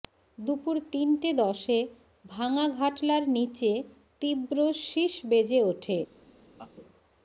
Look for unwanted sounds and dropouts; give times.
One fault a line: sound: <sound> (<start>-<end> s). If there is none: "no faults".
sound: laugh (6.6-6.7 s)